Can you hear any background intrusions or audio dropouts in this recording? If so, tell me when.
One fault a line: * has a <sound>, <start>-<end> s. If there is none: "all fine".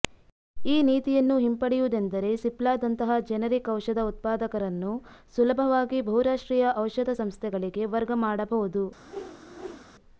* has a whoosh, 9.0-9.9 s